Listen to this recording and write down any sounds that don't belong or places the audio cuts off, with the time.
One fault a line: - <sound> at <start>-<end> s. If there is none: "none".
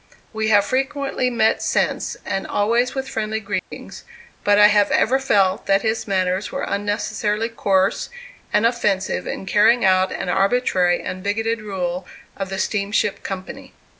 - dropout at 3.6-3.7 s